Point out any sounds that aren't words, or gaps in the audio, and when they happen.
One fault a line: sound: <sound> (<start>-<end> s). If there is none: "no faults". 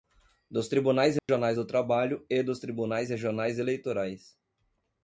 sound: dropout (1.2-1.3 s)